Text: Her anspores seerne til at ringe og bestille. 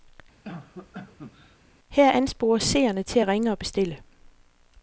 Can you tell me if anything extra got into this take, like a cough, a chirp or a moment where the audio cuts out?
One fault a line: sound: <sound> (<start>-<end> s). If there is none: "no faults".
sound: cough (0.4-1.6 s)